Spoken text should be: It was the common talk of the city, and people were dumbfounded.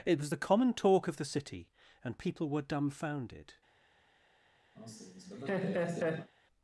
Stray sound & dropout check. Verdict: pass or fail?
fail